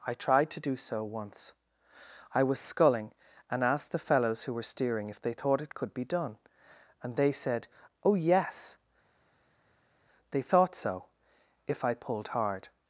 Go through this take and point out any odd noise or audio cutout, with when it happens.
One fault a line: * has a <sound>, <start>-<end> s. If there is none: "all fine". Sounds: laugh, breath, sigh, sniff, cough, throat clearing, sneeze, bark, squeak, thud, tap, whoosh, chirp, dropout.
all fine